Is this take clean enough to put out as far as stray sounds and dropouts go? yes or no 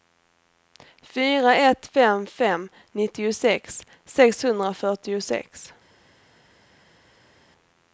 yes